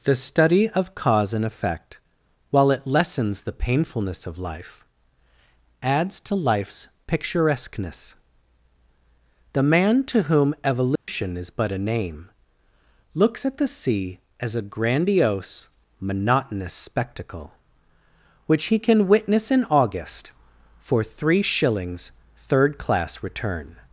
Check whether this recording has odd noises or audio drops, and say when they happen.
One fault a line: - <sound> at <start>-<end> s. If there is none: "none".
- dropout at 11.0-11.1 s